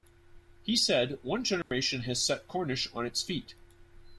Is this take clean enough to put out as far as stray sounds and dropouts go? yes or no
no